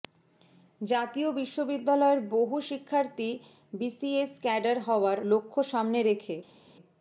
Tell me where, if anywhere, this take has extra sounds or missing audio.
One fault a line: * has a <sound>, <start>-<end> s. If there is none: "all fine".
all fine